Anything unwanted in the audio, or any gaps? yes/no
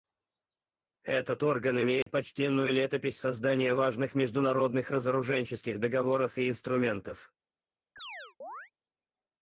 yes